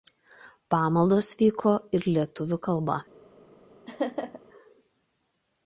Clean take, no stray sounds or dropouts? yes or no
no